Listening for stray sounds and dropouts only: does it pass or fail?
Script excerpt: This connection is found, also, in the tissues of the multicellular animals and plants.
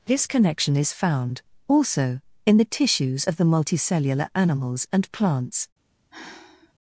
fail